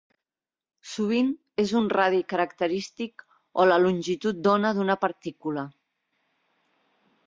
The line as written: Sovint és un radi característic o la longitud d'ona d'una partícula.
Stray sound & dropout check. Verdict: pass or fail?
pass